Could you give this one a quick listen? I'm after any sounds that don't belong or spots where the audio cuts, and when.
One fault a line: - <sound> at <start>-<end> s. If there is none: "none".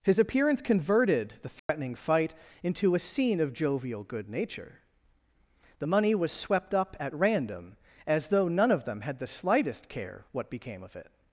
- dropout at 1.6-1.7 s